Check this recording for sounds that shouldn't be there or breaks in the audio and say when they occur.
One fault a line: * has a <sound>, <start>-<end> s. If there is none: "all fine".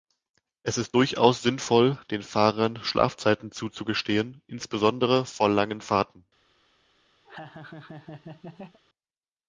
* has a laugh, 7.2-8.8 s